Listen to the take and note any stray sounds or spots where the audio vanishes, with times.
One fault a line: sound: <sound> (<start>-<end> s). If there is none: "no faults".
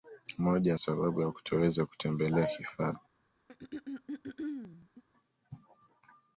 sound: throat clearing (3.5-5.0 s)